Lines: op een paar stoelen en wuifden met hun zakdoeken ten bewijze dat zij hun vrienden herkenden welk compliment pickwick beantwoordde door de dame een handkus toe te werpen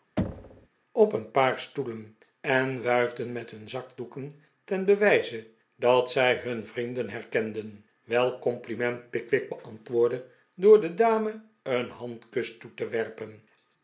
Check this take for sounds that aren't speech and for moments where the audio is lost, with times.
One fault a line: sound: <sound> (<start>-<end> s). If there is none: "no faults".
sound: thud (0.2-0.7 s)